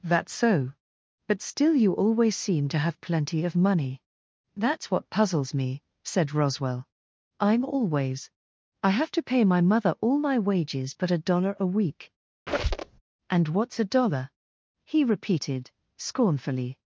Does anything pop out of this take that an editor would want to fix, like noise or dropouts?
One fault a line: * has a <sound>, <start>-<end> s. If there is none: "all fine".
* has a squeak, 12.5-13.0 s